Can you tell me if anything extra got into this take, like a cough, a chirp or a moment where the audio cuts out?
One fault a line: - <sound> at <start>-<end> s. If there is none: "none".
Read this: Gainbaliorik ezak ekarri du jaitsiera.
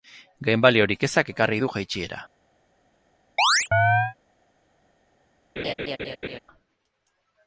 - chirp at 3.4-4.2 s
- laugh at 5.6-6.4 s